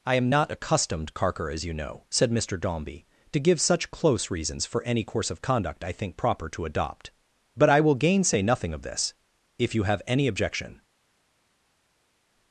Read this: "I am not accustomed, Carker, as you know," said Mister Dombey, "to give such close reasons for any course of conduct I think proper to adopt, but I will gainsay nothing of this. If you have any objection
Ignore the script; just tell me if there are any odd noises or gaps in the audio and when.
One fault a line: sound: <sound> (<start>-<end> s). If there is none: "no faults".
no faults